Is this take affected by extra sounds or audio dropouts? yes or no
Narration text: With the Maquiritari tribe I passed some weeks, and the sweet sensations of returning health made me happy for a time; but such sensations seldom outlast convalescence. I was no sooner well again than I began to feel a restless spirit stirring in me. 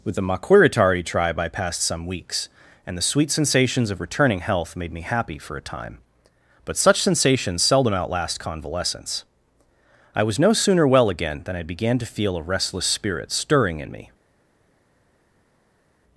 no